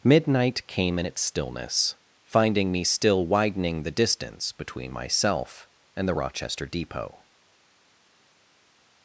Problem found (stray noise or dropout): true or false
false